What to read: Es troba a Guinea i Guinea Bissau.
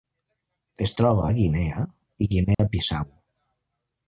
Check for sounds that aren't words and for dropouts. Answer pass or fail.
fail